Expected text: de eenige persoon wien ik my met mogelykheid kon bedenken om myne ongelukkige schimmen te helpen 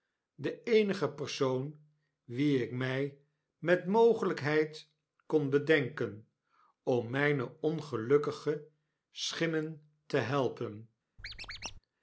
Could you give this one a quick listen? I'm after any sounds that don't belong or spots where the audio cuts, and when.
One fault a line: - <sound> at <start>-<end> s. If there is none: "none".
- squeak at 11.2-11.8 s